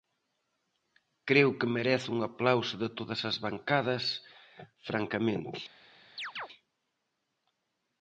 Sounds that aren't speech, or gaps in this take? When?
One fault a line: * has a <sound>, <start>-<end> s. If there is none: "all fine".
* has a chirp, 6.2-6.5 s